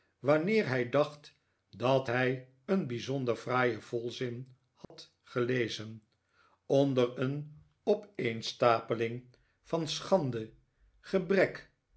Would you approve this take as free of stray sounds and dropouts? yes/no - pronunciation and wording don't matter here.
no